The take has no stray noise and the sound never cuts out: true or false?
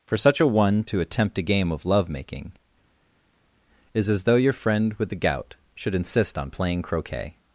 true